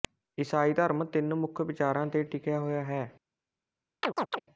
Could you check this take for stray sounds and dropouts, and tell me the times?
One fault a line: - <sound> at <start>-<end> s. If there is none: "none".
- chirp at 4.0-4.4 s